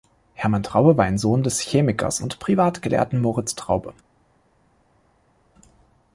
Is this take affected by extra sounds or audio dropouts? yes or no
no